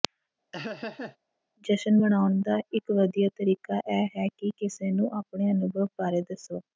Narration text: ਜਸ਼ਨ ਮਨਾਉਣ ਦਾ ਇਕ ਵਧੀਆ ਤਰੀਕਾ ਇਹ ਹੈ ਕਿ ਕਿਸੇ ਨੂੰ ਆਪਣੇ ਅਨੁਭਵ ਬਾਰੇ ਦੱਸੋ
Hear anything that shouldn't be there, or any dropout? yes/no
yes